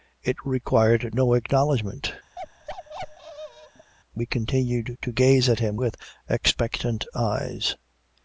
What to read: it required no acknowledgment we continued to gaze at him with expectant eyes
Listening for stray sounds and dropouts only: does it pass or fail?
fail